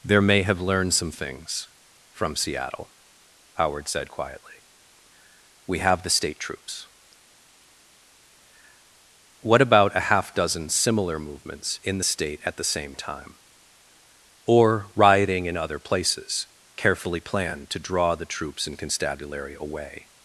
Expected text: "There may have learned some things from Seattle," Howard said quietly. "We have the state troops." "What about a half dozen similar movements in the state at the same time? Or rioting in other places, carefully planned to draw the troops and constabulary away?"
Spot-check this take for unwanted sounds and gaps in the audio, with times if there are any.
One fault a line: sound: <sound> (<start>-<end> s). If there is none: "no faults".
no faults